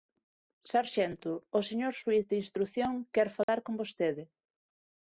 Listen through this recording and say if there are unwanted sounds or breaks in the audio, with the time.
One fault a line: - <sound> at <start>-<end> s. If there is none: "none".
- dropout at 3.4-3.5 s